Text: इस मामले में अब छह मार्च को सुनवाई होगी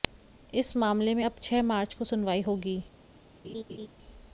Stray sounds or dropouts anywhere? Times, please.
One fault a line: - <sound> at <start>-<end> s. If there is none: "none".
- laugh at 3.4-3.9 s